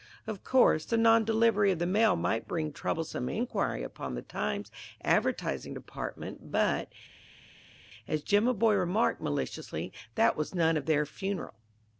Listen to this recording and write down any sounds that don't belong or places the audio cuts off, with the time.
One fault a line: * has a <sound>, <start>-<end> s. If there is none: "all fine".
all fine